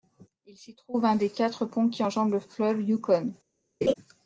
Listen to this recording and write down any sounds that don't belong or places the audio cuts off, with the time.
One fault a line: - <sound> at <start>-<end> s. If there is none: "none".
- laugh at 3.8-3.9 s